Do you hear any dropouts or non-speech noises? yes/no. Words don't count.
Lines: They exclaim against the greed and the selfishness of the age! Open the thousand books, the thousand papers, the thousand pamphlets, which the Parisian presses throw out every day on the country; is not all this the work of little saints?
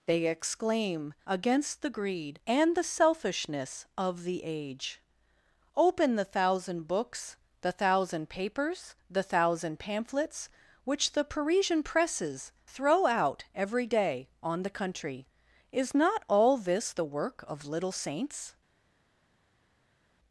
no